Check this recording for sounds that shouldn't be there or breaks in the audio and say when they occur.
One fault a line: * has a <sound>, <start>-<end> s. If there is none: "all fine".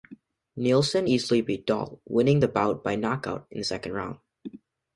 all fine